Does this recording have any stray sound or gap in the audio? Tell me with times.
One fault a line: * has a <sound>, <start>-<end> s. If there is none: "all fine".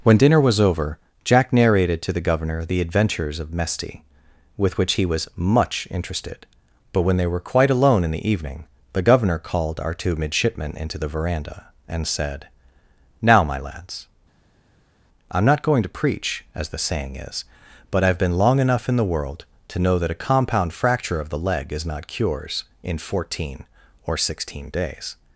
all fine